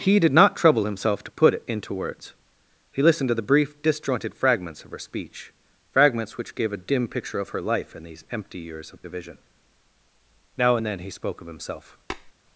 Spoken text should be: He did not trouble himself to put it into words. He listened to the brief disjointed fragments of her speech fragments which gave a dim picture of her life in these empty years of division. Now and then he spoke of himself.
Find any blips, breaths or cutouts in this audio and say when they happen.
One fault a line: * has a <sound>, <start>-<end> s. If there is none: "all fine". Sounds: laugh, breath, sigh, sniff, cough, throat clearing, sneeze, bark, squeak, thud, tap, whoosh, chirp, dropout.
* has a tap, 12.1-12.3 s